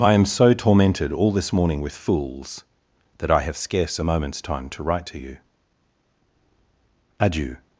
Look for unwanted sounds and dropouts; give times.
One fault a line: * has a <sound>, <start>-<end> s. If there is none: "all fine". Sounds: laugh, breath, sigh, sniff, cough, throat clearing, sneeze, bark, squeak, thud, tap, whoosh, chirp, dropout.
all fine